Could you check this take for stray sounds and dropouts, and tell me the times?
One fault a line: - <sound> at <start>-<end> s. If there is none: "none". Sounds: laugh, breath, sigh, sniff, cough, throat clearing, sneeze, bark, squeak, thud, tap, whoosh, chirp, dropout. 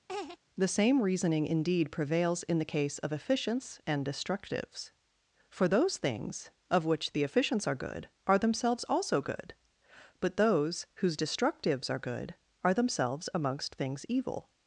- laugh at 0.1-0.4 s